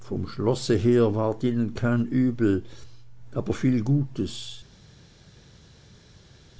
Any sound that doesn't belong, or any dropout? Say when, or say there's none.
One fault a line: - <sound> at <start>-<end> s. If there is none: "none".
none